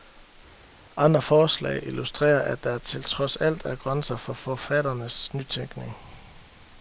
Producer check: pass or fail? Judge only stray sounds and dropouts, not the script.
pass